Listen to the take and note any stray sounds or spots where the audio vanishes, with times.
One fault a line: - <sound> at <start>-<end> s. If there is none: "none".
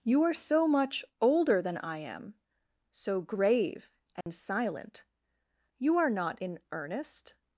- dropout at 4.2-4.3 s